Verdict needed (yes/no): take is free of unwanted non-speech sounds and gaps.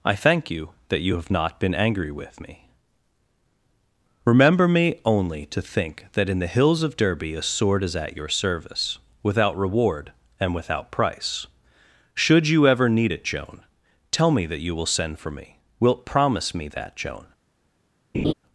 no